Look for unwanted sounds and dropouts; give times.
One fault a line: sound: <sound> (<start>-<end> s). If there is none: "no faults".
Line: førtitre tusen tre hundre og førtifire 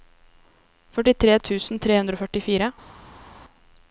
no faults